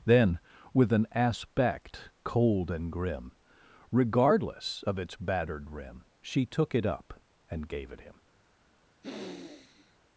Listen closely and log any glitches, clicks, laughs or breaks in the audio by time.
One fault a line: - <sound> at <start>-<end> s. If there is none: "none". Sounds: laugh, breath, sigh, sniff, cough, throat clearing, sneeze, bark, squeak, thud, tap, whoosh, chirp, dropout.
- sniff at 9.0-10.0 s